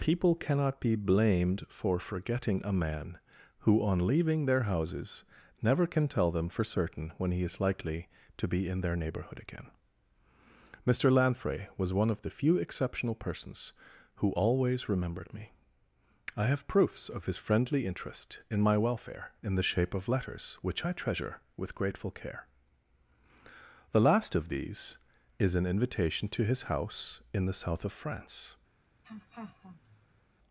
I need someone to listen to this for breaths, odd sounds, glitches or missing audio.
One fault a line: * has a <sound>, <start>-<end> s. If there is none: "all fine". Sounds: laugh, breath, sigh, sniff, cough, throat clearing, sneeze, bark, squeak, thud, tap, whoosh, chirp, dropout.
* has a laugh, 29.0-30.2 s